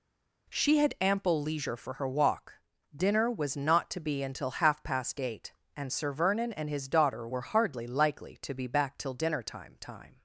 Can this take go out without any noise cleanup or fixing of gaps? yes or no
yes